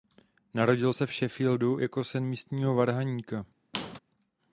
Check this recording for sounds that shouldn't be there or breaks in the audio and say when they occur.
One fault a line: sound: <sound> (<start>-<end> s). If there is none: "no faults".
sound: squeak (3.7-4.0 s)